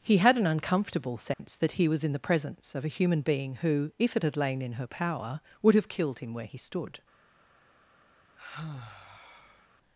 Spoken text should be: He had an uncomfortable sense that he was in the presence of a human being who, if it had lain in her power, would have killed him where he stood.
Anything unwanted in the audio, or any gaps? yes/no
yes